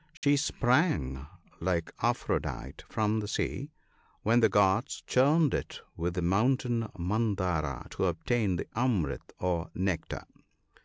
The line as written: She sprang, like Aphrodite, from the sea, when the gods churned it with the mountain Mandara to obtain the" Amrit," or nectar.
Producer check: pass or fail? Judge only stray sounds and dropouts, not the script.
fail